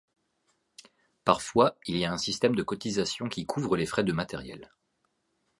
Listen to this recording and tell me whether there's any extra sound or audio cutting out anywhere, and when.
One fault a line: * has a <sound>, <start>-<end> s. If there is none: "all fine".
all fine